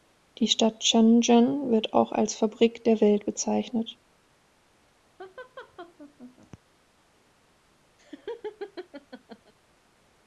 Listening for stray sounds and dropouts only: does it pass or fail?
fail